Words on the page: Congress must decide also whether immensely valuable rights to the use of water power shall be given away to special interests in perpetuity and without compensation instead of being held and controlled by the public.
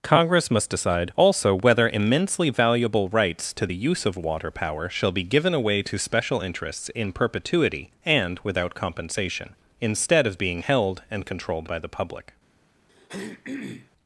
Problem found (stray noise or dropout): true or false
true